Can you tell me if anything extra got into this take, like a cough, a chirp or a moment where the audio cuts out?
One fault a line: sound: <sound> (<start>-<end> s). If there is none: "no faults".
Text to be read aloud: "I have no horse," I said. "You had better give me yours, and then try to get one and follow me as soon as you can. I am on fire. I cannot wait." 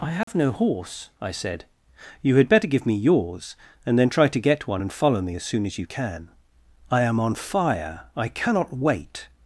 sound: dropout (0.2-0.3 s)